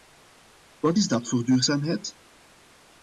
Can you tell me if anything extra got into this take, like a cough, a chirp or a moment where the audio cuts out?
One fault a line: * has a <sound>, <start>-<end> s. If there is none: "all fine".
all fine